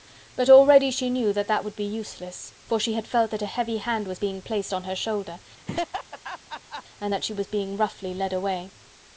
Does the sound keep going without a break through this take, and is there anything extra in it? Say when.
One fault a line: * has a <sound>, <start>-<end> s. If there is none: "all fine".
* has a laugh, 5.6-6.8 s